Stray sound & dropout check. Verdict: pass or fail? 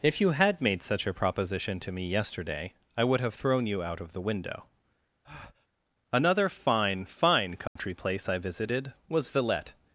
fail